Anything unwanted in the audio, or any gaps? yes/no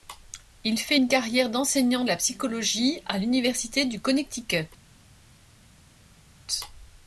no